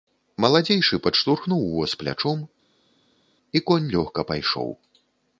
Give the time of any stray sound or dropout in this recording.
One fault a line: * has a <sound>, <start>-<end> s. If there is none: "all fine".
all fine